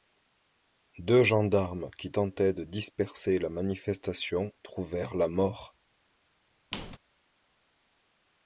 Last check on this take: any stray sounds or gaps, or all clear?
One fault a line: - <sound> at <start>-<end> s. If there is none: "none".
- squeak at 6.7-7.0 s